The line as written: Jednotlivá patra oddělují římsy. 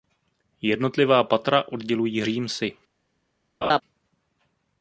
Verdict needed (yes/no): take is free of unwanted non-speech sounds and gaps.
no